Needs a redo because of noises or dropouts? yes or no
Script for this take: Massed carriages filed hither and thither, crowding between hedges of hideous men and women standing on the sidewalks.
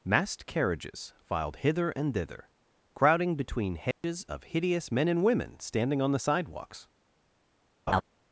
yes